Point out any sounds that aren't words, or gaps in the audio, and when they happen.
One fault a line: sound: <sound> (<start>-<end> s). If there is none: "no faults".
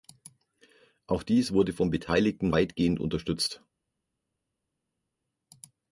no faults